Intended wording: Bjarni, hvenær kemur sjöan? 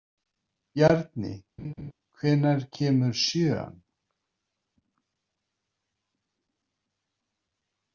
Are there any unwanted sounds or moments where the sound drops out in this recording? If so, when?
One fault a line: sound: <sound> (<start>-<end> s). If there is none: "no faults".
sound: laugh (1.6-1.9 s)